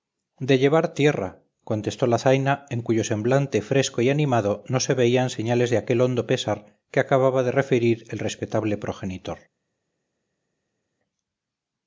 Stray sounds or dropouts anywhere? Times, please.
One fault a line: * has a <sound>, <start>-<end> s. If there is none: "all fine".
all fine